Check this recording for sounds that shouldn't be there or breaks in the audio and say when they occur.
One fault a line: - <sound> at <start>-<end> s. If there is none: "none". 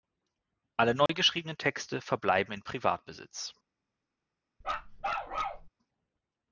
- dropout at 1.1-1.1 s
- bark at 4.6-5.7 s